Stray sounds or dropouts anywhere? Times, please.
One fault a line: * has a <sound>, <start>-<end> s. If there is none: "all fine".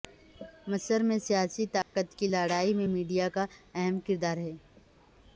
* has a dropout, 1.8-2.0 s